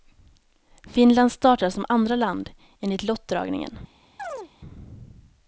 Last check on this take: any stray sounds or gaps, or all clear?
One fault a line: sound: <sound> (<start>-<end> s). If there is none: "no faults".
sound: chirp (4.2-4.5 s)